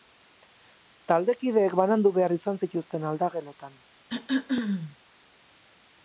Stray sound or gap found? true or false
true